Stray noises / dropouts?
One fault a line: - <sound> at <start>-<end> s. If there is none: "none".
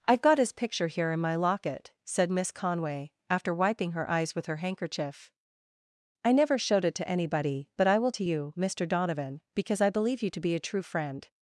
none